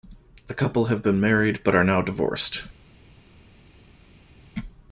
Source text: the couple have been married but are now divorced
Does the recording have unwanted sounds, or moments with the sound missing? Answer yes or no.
no